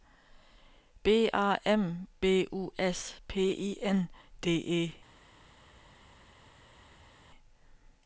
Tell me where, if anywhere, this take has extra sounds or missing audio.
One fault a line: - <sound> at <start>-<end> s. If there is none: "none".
none